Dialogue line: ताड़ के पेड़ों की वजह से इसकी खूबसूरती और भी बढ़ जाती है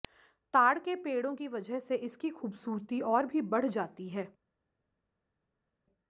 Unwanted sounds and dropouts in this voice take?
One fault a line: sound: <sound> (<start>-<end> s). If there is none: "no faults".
no faults